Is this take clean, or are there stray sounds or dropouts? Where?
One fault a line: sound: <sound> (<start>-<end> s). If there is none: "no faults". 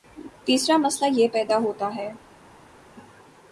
no faults